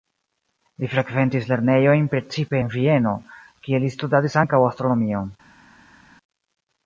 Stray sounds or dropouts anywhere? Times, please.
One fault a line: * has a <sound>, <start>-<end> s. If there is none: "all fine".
all fine